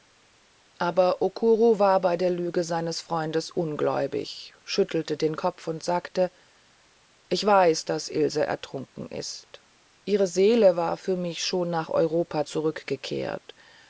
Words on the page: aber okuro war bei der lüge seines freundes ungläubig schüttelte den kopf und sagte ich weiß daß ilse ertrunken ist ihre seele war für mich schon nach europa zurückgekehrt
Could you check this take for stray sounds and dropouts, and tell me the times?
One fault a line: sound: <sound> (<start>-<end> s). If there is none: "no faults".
no faults